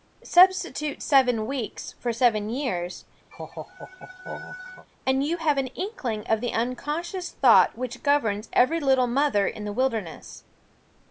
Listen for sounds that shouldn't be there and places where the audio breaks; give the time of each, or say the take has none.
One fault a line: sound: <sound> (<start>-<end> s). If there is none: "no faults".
sound: laugh (3.3-4.9 s)